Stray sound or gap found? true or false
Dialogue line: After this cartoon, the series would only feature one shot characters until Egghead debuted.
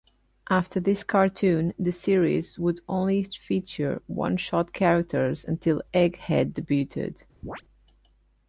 true